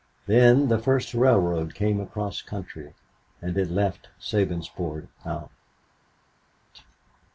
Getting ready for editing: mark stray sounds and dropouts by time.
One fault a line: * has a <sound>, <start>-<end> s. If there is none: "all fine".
all fine